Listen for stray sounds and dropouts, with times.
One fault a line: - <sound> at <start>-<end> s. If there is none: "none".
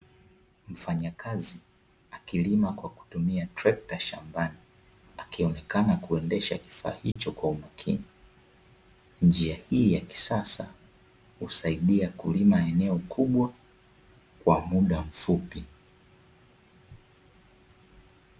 - dropout at 7.1-7.2 s